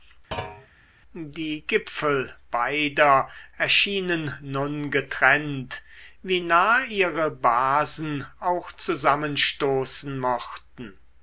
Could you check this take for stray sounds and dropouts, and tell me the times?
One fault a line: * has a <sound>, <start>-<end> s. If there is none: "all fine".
* has a thud, 0.3-0.7 s